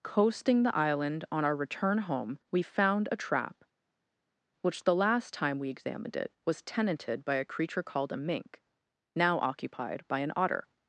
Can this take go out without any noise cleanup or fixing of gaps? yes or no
yes